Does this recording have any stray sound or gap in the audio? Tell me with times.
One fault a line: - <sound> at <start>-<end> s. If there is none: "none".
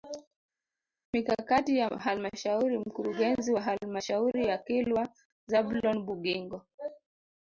none